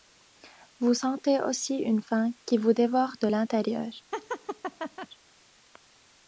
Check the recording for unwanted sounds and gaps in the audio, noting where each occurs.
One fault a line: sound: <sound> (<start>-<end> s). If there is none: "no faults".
sound: laugh (4.1-5.1 s)